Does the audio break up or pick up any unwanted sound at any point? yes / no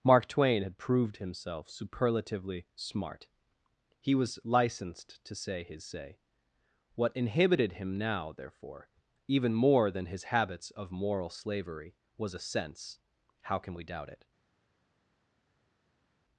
no